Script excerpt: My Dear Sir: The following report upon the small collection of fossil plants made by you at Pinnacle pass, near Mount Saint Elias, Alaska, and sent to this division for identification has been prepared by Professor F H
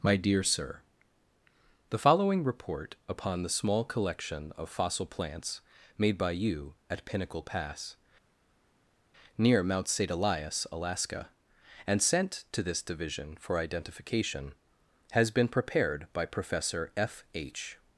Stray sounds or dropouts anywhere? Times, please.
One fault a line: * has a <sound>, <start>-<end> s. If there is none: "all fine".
all fine